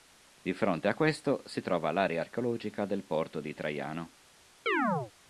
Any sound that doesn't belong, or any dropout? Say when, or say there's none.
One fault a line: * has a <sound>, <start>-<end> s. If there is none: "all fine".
* has a chirp, 4.7-5.1 s